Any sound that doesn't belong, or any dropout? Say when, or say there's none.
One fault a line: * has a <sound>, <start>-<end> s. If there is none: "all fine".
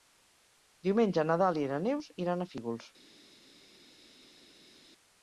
all fine